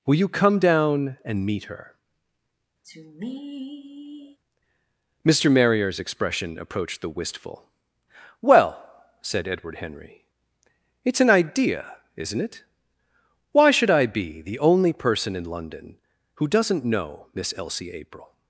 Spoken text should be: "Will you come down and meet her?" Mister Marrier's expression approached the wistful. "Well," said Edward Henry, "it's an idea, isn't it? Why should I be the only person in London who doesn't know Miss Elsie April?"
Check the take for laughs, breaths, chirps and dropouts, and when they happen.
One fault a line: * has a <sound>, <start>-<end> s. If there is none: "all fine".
* has a sigh, 2.8-4.4 s